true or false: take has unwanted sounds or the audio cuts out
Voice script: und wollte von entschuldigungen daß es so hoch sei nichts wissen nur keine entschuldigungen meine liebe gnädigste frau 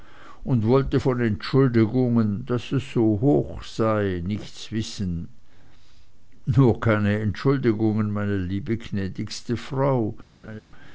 true